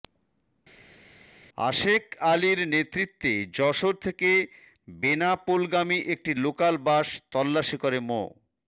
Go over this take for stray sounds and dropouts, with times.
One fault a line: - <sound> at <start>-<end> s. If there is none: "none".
none